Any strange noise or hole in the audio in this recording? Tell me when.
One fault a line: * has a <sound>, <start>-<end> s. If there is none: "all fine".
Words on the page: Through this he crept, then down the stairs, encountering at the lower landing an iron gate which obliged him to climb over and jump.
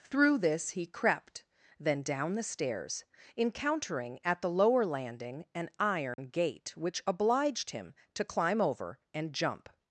* has a dropout, 6.1-6.2 s